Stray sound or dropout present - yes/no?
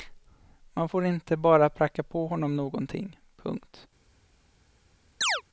yes